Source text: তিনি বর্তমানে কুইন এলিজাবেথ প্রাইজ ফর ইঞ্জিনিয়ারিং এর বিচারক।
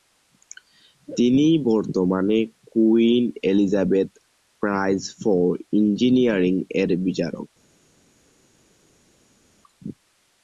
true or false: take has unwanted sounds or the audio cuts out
false